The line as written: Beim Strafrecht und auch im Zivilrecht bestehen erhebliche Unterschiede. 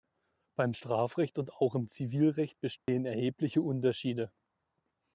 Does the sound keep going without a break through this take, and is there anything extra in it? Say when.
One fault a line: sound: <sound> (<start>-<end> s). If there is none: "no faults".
sound: dropout (2.8-2.9 s)